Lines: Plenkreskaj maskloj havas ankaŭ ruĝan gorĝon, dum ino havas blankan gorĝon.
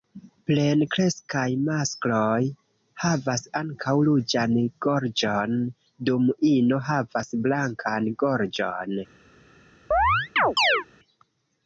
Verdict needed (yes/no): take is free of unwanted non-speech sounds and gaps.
no